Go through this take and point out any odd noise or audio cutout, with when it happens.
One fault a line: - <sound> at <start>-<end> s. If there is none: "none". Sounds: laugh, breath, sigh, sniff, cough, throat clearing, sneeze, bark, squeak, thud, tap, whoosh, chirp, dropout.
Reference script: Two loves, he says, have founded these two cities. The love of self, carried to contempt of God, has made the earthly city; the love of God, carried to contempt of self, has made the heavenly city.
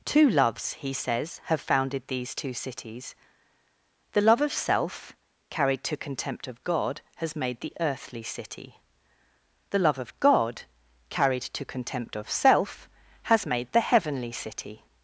none